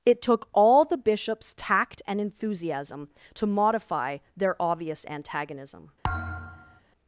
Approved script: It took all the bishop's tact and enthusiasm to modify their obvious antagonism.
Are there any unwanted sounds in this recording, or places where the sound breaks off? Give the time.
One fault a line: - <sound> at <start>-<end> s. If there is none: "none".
- thud at 6.0-6.8 s